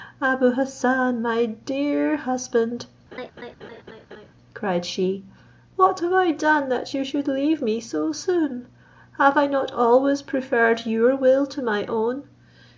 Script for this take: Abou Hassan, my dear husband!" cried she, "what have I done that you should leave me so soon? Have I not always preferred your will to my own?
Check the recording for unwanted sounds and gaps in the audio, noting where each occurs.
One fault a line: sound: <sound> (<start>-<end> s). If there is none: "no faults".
sound: laugh (3.1-4.3 s)